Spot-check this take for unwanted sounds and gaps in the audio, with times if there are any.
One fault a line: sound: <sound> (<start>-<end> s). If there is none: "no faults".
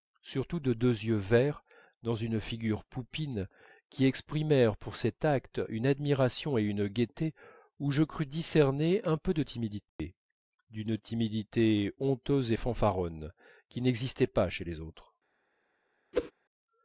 sound: dropout (9.9-10.0 s)
sound: whoosh (16.1-16.3 s)